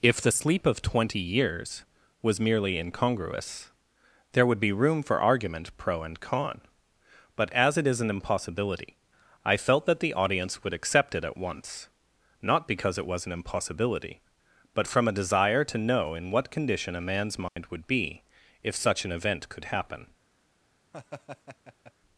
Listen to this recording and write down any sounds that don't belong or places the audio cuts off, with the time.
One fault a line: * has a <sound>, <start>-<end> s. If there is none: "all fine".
* has a dropout, 17.5-17.6 s
* has a laugh, 20.9-21.9 s